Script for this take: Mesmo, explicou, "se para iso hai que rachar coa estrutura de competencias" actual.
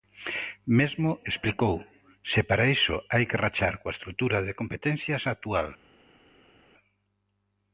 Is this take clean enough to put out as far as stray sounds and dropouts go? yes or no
yes